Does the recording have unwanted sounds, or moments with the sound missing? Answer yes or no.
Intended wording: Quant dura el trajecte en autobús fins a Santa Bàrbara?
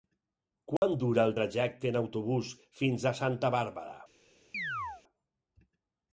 yes